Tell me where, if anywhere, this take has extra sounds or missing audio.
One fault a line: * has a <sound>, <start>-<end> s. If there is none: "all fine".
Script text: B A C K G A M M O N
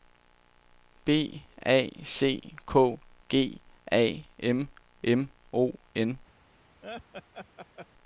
* has a laugh, 6.8-7.9 s